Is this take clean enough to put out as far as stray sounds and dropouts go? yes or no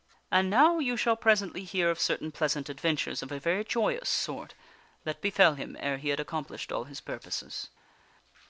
yes